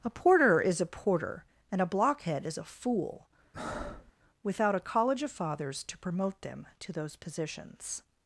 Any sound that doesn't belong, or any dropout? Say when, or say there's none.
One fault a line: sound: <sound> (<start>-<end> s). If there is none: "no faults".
sound: breath (3.5-4.1 s)